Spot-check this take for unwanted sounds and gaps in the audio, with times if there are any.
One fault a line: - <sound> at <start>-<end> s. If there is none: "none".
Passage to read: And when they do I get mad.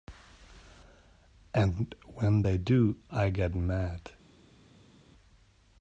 none